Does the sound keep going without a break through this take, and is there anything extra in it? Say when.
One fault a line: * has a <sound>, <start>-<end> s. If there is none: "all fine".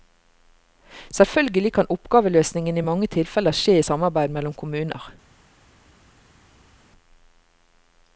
all fine